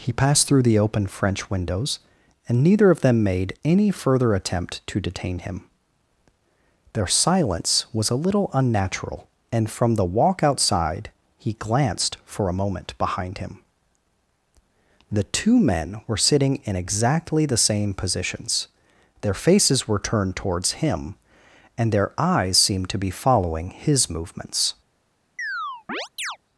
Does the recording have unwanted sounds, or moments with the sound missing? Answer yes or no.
yes